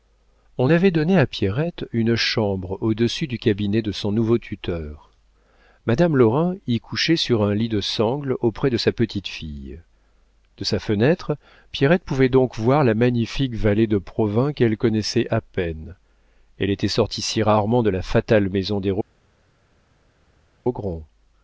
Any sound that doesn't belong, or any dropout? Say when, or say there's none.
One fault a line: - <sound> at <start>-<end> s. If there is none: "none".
none